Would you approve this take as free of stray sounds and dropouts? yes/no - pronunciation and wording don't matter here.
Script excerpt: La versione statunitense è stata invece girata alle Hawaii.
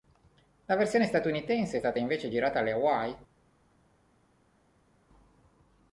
yes